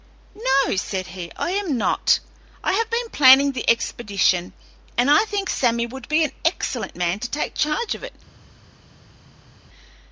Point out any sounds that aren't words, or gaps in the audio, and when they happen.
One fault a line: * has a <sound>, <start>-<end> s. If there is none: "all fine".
all fine